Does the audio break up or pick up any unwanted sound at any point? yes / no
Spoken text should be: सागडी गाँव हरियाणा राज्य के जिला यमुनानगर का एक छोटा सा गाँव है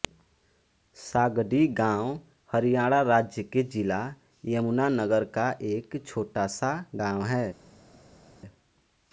no